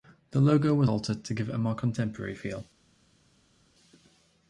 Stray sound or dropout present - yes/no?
no